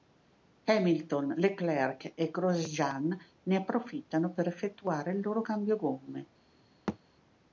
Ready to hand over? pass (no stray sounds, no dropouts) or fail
fail